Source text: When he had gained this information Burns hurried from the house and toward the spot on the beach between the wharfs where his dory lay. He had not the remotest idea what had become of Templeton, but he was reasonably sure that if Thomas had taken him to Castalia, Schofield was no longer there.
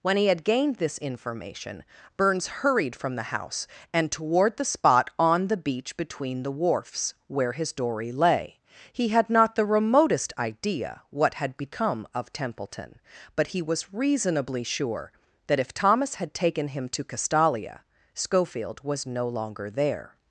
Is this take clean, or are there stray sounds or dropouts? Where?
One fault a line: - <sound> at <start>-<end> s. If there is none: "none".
none